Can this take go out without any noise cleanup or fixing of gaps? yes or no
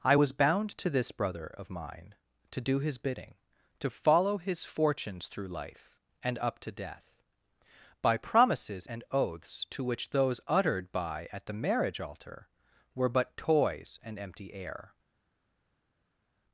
yes